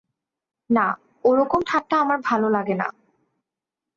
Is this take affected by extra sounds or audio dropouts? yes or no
no